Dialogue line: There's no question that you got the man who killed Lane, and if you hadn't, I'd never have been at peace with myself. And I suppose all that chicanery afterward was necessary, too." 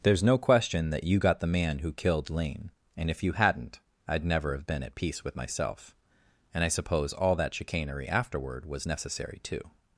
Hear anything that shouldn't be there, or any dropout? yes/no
no